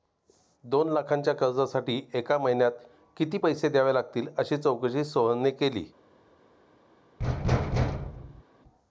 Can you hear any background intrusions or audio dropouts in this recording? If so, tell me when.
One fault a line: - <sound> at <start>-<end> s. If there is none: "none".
- thud at 7.2-8.4 s